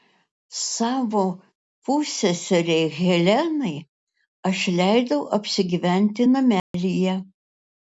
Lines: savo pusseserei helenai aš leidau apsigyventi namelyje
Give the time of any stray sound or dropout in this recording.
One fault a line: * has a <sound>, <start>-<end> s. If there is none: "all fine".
* has a dropout, 6.6-6.7 s